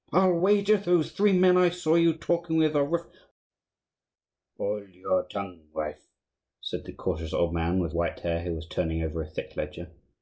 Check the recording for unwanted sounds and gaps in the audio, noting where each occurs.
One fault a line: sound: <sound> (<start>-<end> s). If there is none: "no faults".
no faults